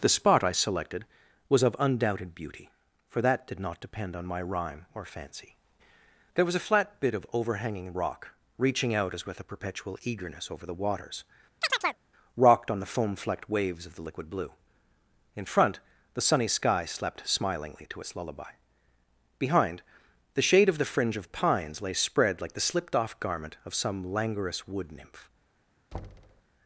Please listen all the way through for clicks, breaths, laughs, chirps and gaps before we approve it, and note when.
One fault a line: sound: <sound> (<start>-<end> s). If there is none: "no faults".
sound: chirp (11.6-12.0 s)
sound: thud (25.9-26.4 s)